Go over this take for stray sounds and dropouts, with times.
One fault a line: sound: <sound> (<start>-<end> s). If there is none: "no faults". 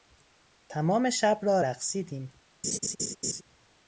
sound: laugh (2.6-3.4 s)